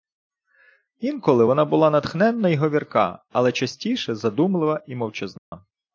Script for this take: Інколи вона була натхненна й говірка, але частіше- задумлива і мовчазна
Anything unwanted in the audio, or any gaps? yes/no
yes